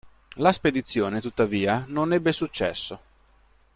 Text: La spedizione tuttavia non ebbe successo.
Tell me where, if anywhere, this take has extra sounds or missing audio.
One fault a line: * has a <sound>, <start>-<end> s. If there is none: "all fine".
all fine